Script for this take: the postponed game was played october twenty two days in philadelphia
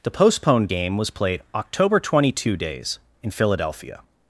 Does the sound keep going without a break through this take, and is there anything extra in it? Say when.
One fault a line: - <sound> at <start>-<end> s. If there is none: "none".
none